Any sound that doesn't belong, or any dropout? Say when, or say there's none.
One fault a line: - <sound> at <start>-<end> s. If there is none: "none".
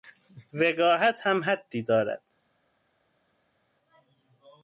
none